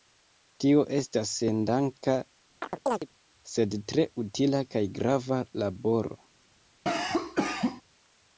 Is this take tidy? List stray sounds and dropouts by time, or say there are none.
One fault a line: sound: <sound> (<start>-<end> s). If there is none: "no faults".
sound: chirp (2.6-3.1 s)
sound: cough (6.9-7.8 s)